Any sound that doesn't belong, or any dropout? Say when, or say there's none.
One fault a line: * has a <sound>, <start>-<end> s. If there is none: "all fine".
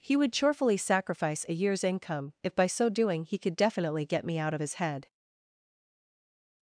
all fine